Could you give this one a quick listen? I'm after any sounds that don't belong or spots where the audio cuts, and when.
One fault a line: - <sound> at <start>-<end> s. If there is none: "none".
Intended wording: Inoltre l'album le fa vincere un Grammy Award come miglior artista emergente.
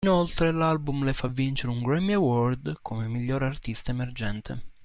none